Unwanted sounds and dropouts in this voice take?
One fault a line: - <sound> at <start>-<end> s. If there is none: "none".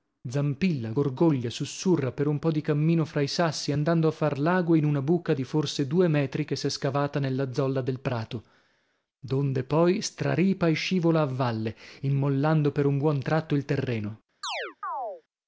- chirp at 14.4-15.2 s